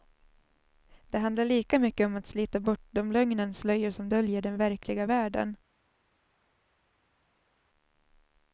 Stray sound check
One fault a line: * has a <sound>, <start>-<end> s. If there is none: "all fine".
all fine